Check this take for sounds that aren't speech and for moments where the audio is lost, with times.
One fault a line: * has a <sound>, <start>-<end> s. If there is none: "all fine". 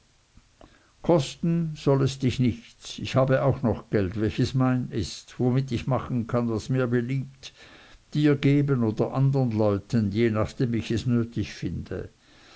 all fine